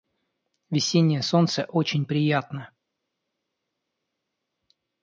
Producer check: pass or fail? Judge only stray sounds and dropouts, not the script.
pass